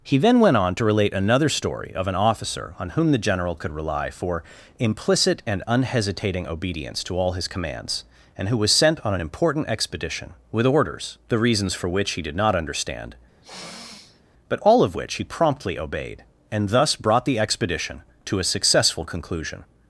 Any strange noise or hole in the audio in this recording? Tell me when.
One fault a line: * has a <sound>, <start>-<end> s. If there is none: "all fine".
* has a sniff, 13.4-14.2 s